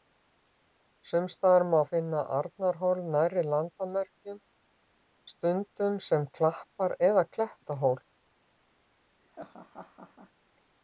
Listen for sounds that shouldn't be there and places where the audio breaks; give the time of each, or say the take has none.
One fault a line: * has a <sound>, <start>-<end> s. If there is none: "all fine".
* has a laugh, 9.2-10.3 s